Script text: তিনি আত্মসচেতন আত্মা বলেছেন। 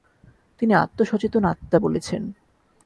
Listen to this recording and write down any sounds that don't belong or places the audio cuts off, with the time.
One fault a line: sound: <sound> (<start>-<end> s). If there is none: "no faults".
no faults